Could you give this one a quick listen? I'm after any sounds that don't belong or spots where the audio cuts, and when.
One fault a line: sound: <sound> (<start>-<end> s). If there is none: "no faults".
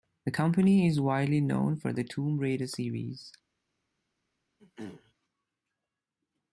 sound: throat clearing (4.6-5.1 s)